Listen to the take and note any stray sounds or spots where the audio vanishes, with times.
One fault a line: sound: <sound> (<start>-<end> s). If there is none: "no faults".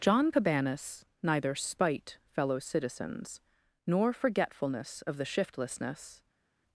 no faults